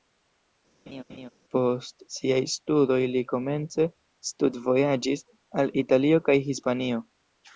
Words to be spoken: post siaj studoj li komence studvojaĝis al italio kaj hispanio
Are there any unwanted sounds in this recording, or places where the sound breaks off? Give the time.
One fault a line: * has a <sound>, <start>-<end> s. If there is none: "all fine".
* has a laugh, 0.9-1.3 s